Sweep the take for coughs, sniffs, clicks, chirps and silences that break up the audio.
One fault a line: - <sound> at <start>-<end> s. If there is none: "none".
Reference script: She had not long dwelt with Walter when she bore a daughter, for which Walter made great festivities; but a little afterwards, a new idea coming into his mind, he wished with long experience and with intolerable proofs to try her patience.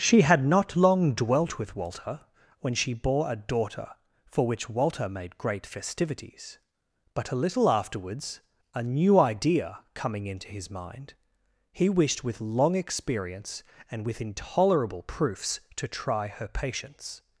none